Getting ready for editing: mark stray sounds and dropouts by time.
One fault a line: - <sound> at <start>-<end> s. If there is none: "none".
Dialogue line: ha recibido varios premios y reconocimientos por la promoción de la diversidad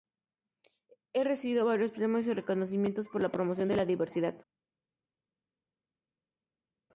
none